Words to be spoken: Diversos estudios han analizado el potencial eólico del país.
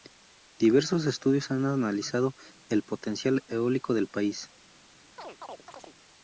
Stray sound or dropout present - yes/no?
yes